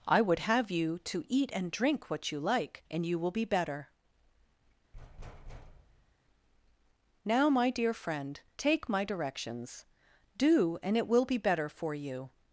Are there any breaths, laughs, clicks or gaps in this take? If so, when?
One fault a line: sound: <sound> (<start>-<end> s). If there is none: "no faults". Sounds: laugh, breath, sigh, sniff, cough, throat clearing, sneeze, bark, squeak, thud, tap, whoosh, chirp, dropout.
sound: thud (4.9-6.2 s)